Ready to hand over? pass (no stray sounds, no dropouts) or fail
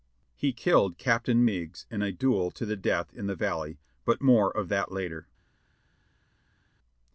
pass